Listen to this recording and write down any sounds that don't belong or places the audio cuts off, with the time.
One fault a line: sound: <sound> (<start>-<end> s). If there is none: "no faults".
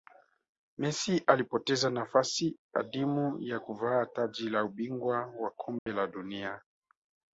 sound: dropout (5.8-5.9 s)